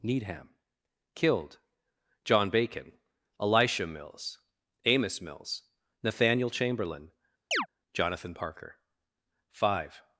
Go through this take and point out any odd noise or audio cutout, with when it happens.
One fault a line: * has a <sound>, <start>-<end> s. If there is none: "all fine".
* has a chirp, 7.5-7.7 s